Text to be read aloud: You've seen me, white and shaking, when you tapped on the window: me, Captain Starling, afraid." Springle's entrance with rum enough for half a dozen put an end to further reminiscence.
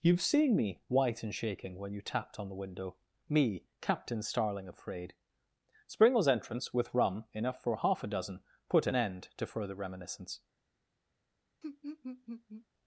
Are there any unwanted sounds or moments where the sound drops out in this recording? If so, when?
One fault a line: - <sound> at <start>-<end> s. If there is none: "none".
- laugh at 11.6-12.7 s